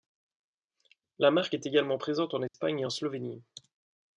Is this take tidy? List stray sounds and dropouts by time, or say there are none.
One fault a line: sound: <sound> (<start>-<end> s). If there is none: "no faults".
sound: dropout (2.5-2.5 s)